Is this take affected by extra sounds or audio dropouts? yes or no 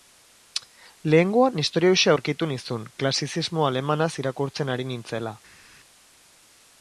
no